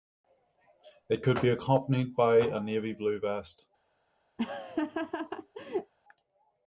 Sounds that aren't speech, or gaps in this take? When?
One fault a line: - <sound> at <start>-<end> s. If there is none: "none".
- laugh at 4.4-5.9 s